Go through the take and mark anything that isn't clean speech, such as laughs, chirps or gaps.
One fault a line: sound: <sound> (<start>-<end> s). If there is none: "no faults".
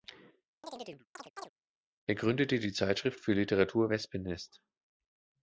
sound: chirp (0.6-1.5 s)